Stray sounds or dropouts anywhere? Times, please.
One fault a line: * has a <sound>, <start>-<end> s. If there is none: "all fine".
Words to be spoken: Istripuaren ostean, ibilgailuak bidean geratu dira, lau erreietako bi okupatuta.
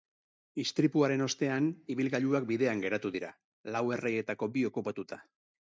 all fine